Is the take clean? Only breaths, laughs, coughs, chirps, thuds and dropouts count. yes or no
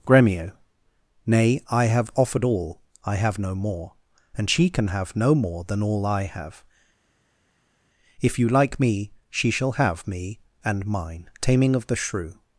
yes